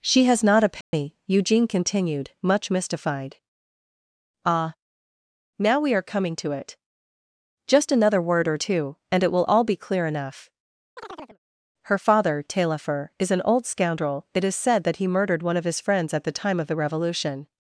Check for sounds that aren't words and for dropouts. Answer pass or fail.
fail